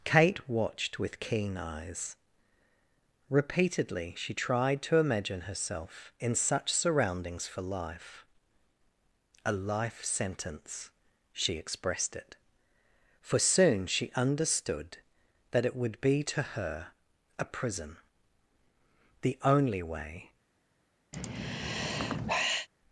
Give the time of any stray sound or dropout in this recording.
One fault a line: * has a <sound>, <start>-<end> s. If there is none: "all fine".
* has a sigh, 21.1-22.7 s